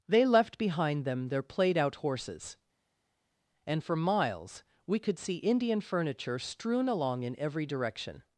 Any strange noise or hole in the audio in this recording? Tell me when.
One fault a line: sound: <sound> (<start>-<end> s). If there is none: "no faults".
no faults